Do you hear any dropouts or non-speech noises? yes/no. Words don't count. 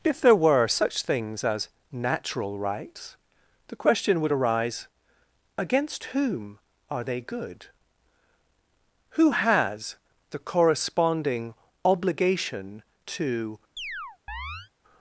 yes